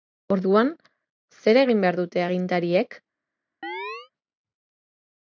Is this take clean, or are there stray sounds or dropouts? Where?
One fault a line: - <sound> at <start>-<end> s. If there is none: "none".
- chirp at 3.6-4.1 s